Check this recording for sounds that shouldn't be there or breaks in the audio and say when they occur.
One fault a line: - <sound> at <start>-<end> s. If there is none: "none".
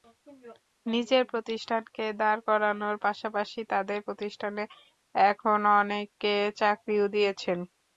none